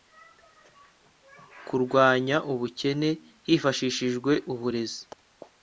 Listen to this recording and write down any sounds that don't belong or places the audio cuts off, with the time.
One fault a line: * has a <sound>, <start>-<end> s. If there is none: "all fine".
all fine